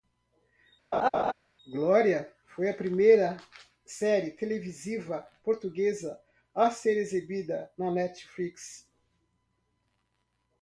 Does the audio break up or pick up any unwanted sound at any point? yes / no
yes